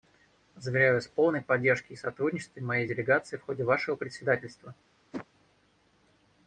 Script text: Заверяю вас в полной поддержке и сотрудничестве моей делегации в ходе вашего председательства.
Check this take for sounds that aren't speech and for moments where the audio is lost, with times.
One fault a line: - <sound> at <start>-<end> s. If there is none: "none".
- whoosh at 5.1-5.3 s